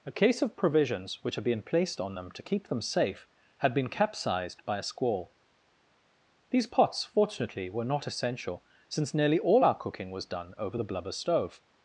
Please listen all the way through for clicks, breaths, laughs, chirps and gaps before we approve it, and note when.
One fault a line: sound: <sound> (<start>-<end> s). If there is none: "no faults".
no faults